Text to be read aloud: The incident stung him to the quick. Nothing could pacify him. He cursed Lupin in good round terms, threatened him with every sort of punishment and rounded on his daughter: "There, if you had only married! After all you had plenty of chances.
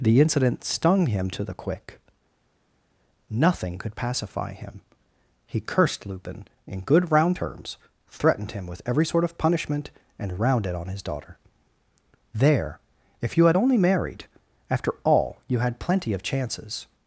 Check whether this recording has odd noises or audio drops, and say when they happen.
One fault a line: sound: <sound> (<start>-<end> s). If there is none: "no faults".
no faults